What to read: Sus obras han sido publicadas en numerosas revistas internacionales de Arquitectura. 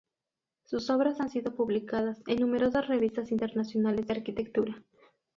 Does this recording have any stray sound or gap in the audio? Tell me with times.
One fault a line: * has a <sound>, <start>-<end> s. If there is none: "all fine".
all fine